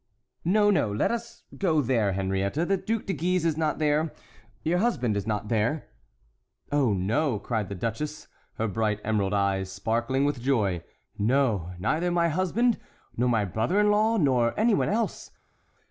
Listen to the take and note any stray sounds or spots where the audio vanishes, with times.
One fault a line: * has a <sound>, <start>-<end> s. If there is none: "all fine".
all fine